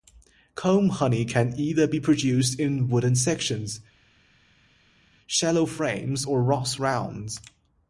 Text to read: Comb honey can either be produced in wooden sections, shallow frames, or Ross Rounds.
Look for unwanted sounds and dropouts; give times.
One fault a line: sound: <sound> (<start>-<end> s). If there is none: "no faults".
no faults